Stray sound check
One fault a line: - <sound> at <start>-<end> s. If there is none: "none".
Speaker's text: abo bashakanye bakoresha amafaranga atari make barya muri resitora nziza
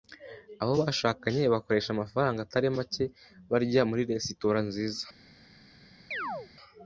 - chirp at 6.1-6.5 s